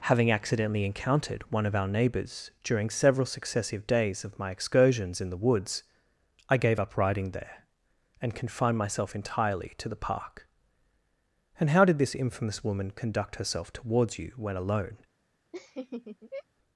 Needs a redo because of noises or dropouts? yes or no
yes